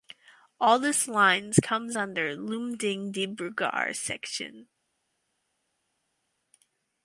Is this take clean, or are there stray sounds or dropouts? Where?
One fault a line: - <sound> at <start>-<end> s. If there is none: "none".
none